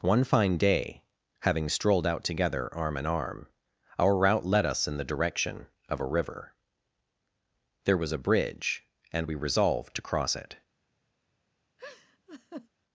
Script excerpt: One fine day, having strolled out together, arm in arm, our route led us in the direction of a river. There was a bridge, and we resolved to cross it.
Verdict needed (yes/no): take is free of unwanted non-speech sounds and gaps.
no